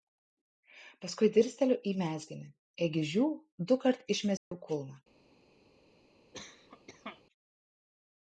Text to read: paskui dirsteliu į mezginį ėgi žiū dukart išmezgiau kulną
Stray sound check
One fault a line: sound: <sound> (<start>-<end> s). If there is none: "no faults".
sound: dropout (4.4-4.5 s)
sound: cough (6.3-7.2 s)